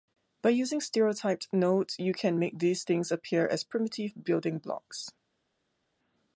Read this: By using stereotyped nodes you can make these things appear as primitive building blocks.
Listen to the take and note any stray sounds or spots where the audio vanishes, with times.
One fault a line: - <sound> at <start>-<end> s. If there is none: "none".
none